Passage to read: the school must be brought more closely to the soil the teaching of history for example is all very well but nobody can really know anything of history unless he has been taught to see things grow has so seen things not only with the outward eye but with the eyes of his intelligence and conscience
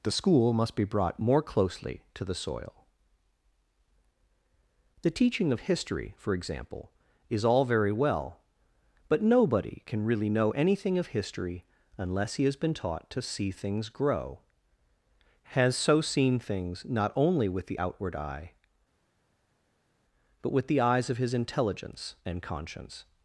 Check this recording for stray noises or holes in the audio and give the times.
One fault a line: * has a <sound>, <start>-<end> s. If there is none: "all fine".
all fine